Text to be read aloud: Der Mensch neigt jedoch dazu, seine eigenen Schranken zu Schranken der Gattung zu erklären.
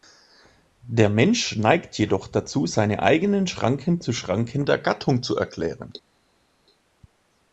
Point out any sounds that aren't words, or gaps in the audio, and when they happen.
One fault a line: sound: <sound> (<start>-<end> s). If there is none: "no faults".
no faults